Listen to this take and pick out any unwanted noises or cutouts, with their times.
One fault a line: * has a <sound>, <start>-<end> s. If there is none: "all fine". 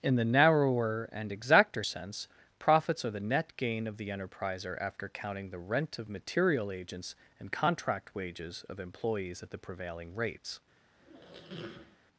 * has a squeak, 11.0-12.0 s